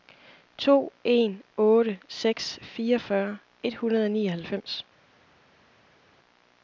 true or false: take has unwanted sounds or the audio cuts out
false